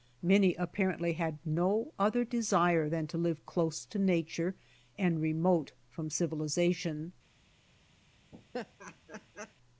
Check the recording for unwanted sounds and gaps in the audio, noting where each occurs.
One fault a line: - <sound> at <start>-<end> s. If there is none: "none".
- laugh at 8.3-9.5 s